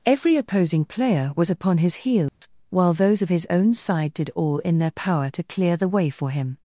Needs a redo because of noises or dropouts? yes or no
yes